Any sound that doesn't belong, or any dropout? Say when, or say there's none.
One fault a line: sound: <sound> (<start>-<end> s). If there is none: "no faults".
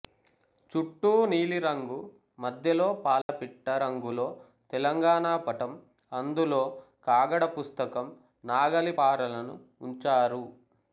sound: dropout (3.2-3.3 s)